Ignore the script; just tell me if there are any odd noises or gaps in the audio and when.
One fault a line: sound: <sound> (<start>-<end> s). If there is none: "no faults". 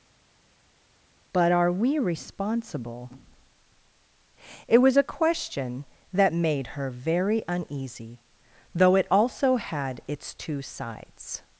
no faults